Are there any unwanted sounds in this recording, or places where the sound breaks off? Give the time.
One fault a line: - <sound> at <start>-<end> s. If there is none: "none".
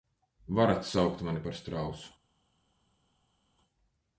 none